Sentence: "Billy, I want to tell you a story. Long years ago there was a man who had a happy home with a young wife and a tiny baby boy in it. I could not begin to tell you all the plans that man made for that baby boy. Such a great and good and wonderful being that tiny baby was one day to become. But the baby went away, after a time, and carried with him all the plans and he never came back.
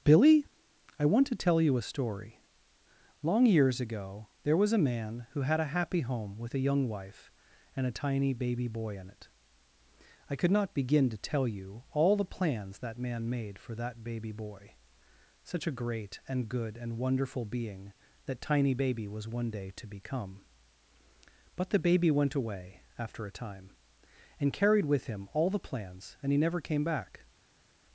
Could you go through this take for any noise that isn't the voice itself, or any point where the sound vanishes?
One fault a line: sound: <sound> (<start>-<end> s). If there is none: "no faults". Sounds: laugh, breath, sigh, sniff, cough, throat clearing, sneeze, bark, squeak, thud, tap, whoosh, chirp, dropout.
no faults